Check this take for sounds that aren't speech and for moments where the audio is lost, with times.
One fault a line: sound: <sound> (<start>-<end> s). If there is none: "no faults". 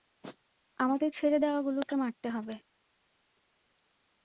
no faults